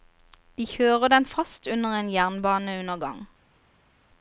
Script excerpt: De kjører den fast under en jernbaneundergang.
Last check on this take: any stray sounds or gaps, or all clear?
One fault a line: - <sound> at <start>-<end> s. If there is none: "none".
none